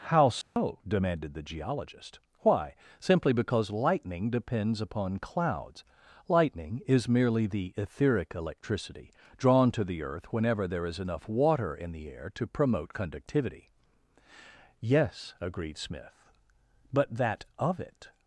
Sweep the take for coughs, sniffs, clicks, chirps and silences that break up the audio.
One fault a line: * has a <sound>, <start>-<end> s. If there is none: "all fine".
* has a dropout, 0.4-0.6 s